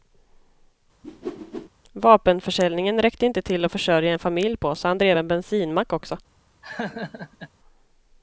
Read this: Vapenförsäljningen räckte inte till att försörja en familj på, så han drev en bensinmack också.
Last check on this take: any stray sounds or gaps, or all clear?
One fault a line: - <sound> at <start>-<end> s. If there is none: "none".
- whoosh at 1.0-1.7 s
- laugh at 6.6-7.5 s